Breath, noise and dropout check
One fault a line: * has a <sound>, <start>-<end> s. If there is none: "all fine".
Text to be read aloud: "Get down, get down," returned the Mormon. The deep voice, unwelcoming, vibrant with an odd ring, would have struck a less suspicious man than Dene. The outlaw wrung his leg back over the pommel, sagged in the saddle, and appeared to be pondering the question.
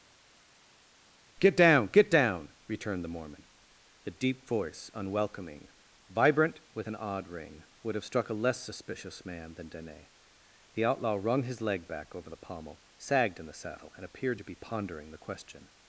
all fine